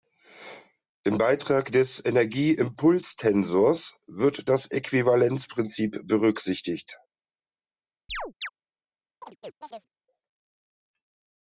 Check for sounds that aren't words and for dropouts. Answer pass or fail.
fail